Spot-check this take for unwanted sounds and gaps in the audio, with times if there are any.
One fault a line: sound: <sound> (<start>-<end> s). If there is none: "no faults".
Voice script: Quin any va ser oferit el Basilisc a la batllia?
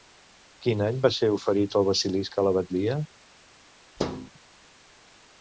sound: thud (4.0-4.3 s)